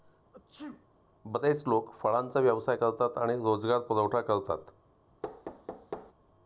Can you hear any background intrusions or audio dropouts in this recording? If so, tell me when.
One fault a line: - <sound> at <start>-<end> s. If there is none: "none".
- sneeze at 0.3-0.9 s
- thud at 5.2-6.1 s